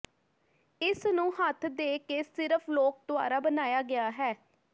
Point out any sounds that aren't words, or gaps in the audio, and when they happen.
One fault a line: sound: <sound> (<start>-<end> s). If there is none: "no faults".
no faults